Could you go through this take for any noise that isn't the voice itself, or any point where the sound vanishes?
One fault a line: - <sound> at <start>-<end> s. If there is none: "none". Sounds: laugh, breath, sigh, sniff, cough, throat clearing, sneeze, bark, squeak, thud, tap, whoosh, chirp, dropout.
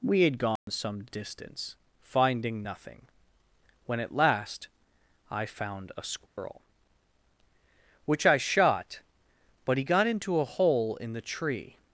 - dropout at 0.6-0.7 s
- dropout at 6.3-6.4 s